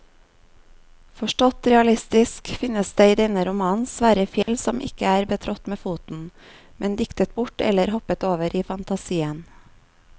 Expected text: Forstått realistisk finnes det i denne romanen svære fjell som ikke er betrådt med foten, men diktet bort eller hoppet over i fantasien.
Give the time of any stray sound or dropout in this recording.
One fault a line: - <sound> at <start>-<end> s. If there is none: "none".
- dropout at 4.4-4.5 s